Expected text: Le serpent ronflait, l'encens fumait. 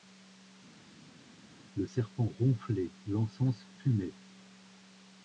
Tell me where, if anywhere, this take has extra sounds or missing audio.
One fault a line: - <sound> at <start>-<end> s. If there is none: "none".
none